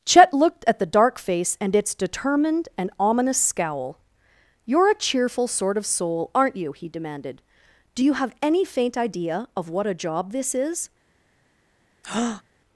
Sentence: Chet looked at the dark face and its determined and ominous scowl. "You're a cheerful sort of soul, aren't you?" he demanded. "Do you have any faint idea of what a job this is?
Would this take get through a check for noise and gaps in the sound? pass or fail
fail